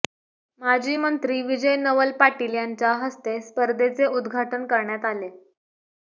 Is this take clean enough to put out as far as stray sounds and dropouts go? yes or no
yes